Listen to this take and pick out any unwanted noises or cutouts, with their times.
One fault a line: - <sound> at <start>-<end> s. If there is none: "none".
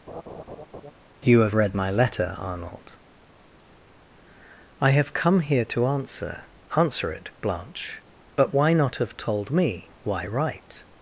- laugh at 0.1-0.9 s